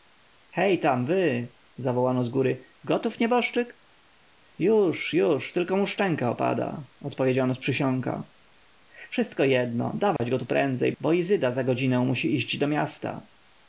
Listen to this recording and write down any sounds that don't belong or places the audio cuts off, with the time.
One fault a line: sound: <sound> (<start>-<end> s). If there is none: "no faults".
sound: dropout (10.2-10.2 s)